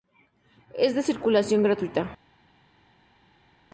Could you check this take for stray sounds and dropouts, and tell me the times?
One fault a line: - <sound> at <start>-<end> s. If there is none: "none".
none